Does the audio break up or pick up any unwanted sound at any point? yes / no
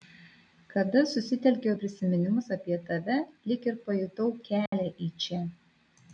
yes